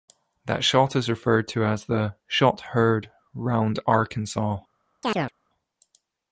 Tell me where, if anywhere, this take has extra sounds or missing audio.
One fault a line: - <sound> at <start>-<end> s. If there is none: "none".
- chirp at 5.0-5.3 s